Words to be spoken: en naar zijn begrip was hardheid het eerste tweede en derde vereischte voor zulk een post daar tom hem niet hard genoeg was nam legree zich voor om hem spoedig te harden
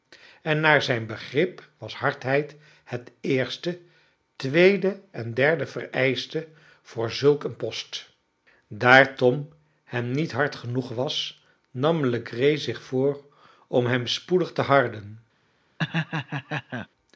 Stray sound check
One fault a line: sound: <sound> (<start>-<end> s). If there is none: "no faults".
sound: laugh (15.8-16.9 s)